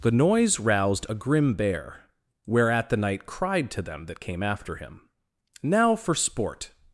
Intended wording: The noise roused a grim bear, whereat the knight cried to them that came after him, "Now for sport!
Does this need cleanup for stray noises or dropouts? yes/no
no